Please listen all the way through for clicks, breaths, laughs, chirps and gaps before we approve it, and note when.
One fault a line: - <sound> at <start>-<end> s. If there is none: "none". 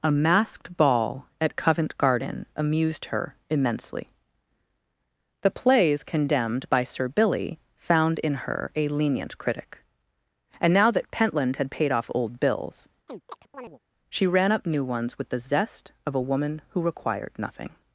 - chirp at 13.1-13.8 s